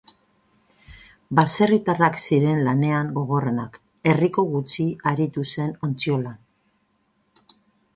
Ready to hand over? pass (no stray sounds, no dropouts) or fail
pass